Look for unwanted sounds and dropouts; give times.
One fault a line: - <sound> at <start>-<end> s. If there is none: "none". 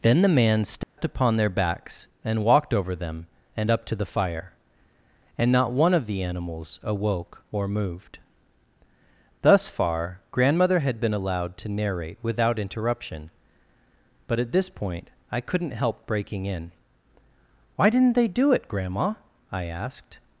- dropout at 0.8-1.0 s